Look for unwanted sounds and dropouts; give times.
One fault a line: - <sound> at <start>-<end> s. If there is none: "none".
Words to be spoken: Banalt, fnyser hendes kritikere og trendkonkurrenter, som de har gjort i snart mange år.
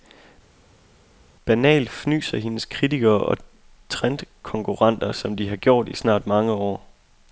none